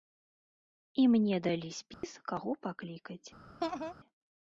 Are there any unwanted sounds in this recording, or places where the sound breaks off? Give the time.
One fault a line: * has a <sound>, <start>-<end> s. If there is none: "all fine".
* has a dropout, 1.9-2.0 s
* has a laugh, 3.6-3.9 s